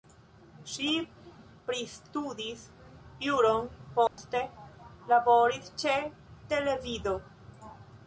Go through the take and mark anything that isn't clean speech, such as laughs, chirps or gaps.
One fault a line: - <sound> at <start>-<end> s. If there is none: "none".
- dropout at 4.1-4.2 s